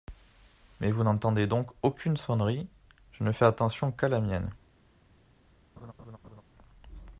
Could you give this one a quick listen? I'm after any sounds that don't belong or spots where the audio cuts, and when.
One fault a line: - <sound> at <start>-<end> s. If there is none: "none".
- laugh at 5.8-6.4 s